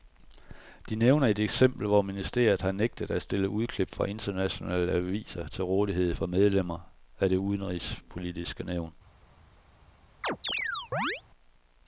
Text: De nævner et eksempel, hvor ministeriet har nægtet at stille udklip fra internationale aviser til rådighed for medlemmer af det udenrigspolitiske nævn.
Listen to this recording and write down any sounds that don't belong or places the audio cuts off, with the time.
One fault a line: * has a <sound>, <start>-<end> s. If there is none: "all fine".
* has a chirp, 10.2-11.2 s